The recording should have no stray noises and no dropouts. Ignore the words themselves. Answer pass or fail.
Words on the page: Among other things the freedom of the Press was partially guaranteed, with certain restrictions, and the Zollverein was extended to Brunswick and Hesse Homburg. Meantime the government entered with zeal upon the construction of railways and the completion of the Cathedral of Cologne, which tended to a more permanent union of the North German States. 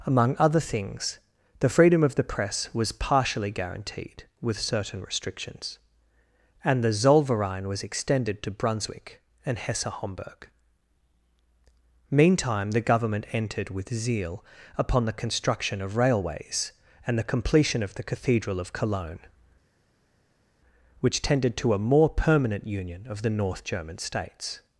pass